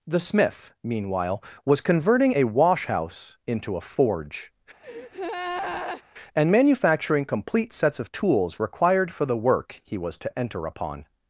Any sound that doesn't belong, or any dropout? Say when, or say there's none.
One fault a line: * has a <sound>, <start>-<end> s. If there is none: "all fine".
* has a breath, 4.8-6.0 s